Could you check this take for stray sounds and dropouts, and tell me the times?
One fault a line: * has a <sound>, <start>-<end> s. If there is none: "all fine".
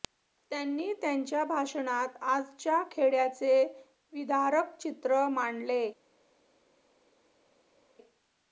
all fine